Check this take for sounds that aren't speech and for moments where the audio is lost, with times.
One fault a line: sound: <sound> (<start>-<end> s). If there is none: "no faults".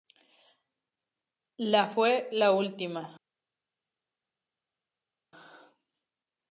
no faults